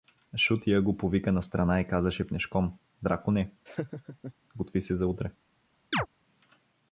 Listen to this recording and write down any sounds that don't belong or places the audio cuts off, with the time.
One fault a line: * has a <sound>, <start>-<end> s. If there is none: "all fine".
* has a laugh, 3.7-4.3 s
* has a chirp, 5.9-6.1 s